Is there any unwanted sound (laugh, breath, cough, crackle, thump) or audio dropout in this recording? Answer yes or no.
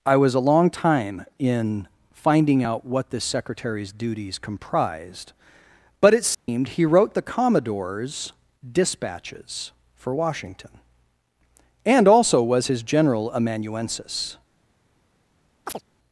yes